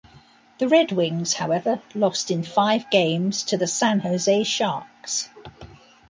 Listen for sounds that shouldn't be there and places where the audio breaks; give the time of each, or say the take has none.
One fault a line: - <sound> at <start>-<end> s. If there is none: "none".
none